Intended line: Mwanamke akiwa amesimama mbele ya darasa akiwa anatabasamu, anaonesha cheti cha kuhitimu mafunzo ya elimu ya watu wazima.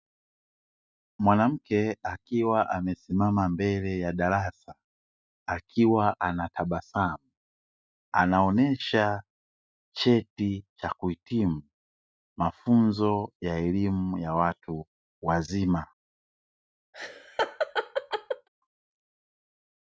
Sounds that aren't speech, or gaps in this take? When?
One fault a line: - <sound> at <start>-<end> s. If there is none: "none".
- laugh at 16.9-18.5 s